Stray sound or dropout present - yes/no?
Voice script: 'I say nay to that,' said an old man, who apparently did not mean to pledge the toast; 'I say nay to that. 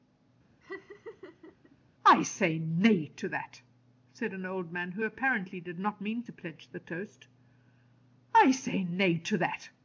yes